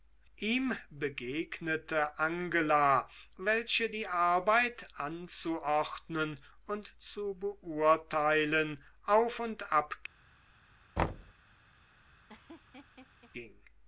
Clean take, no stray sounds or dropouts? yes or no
no